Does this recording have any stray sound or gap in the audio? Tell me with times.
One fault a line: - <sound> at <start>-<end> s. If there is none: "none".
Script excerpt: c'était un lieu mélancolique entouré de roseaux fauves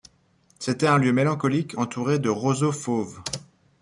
none